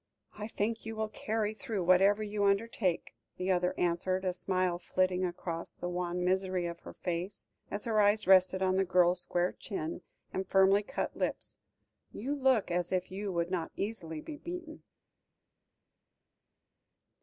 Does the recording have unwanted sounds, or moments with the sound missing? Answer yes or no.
no